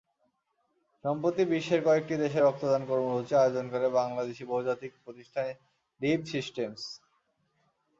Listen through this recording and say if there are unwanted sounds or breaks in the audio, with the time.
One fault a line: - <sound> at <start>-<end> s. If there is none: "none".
none